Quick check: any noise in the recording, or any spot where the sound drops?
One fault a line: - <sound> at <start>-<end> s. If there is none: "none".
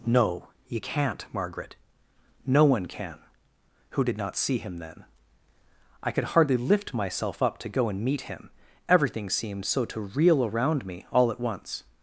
none